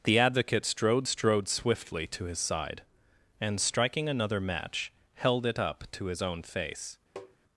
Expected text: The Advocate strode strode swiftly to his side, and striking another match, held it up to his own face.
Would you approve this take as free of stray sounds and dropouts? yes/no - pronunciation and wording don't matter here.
no